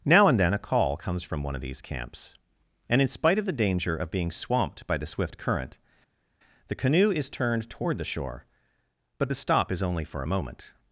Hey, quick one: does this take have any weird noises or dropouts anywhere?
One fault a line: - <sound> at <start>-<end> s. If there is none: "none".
none